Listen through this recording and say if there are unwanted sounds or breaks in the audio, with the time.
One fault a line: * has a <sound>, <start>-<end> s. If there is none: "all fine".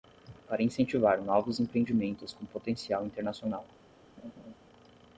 * has a laugh, 4.2-4.5 s